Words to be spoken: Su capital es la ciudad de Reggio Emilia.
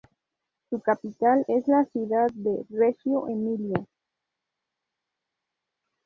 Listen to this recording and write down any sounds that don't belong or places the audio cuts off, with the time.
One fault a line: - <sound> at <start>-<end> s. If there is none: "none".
none